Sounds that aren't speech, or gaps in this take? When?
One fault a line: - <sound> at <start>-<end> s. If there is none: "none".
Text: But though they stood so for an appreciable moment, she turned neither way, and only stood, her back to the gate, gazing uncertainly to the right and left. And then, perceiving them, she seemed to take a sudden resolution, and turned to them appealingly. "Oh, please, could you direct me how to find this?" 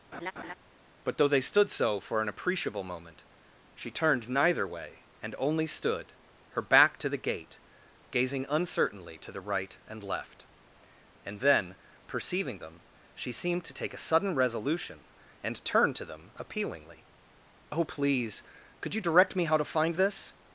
- laugh at 0.1-0.5 s